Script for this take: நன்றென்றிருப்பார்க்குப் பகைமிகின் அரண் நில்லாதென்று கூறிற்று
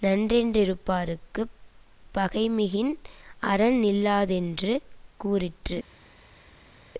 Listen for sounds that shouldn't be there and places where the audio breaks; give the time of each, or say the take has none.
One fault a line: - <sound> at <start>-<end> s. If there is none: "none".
none